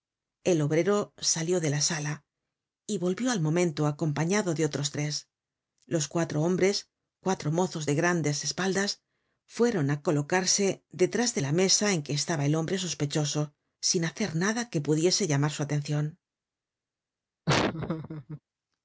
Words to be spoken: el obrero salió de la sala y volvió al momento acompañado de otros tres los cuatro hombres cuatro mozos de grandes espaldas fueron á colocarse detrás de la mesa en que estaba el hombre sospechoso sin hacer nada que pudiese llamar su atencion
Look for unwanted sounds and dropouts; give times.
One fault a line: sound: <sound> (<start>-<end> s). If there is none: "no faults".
sound: laugh (17.5-18.4 s)